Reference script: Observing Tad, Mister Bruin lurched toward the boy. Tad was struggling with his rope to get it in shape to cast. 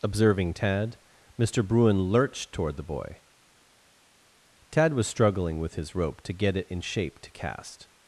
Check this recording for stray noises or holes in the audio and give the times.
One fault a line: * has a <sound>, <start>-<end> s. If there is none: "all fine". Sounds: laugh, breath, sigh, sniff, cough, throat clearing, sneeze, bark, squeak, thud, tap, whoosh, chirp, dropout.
all fine